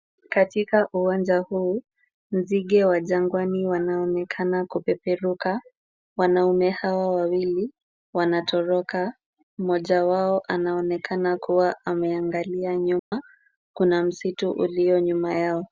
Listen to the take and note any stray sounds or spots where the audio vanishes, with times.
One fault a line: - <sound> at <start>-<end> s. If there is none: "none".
- dropout at 13.0-13.1 s